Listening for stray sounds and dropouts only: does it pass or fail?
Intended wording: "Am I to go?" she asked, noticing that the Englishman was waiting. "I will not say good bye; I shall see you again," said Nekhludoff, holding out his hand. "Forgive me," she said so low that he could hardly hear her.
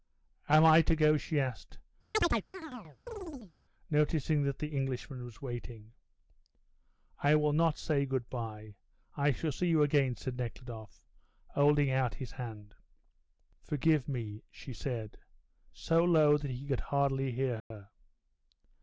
fail